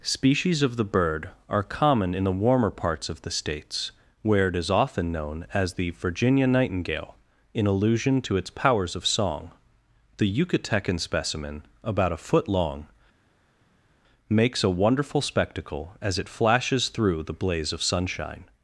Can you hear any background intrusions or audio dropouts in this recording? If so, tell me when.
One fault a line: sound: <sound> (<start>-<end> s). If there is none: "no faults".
no faults